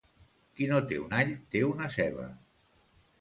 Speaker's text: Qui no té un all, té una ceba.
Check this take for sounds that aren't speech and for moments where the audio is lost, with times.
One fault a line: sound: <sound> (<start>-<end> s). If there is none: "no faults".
no faults